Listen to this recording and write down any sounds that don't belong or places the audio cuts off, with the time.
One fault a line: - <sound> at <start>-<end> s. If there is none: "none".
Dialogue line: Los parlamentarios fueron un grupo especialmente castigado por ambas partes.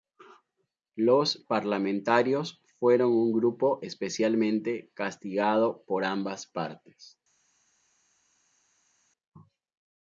none